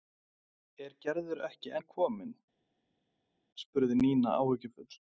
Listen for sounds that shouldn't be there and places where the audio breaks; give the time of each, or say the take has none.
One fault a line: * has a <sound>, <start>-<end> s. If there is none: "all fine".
all fine